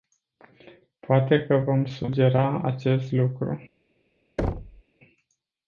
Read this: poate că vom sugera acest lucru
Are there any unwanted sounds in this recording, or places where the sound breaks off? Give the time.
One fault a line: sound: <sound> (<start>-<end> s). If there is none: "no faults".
sound: thud (4.4-4.8 s)